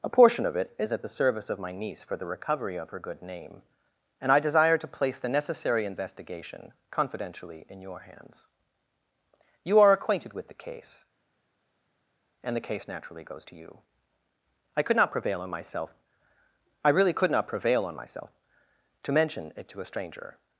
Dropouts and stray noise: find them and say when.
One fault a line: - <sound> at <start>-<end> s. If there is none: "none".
none